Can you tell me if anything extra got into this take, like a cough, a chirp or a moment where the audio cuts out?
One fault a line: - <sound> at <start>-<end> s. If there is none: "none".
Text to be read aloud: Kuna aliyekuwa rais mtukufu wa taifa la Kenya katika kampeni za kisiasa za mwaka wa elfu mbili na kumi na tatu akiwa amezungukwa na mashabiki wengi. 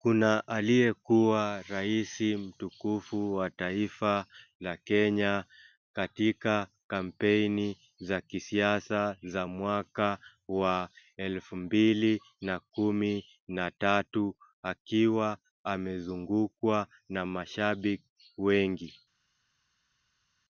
none